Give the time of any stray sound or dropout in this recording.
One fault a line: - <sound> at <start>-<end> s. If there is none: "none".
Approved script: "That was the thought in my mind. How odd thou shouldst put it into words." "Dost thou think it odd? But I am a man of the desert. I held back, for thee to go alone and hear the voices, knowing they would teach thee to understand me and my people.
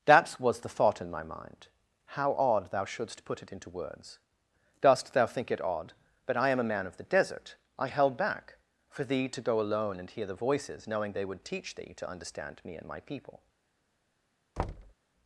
- thud at 14.6-14.9 s